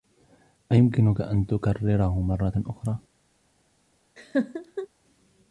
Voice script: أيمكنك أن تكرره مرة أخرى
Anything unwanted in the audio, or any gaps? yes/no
yes